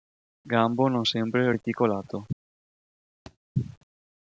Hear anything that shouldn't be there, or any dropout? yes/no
yes